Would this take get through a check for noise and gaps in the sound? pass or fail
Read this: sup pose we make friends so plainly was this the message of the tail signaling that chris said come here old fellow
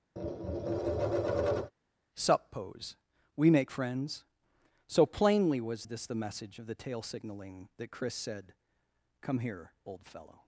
fail